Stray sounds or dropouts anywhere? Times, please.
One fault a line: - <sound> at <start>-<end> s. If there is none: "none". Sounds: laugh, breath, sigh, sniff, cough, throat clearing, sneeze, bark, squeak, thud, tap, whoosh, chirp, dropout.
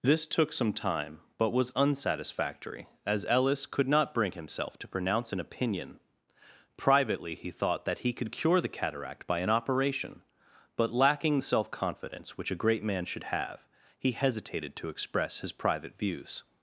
none